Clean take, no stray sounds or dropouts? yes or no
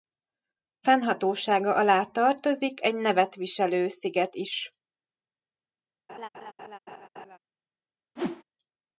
no